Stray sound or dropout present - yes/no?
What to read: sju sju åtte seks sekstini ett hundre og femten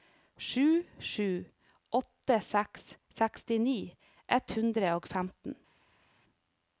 no